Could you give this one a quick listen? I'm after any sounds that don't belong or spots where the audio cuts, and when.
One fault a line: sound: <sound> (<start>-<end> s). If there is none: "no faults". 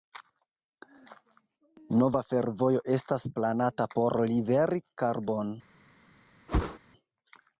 sound: whoosh (6.5-6.8 s)